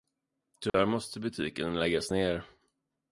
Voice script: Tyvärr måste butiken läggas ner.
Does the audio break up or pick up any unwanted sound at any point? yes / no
yes